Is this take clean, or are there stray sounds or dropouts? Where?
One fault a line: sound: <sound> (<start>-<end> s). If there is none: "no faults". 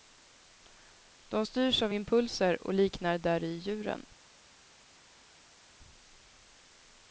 no faults